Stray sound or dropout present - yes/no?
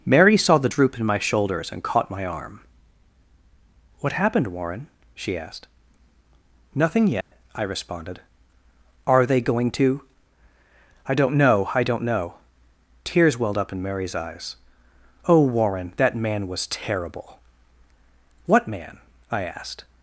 yes